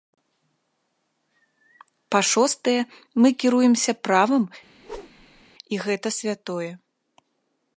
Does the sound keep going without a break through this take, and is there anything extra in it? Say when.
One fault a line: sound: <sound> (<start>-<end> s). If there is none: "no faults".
sound: whoosh (4.8-5.4 s)